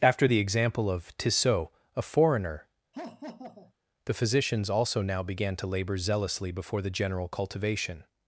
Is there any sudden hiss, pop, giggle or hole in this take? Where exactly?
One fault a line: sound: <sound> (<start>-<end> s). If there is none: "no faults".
sound: laugh (2.9-3.7 s)